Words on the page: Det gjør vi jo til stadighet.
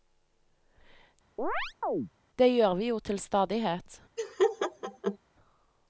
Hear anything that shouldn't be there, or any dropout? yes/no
yes